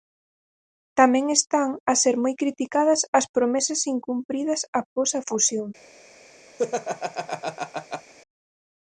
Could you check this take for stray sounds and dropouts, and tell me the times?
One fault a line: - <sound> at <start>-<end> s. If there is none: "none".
- laugh at 6.6-8.1 s